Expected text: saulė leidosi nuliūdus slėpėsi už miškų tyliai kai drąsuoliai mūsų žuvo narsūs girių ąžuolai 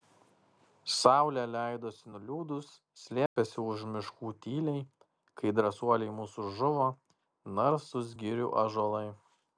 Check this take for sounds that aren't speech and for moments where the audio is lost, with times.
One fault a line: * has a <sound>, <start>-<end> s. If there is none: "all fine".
* has a dropout, 3.3-3.4 s